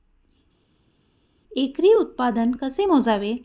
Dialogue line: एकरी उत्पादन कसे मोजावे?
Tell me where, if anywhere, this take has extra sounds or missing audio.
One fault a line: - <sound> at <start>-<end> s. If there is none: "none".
none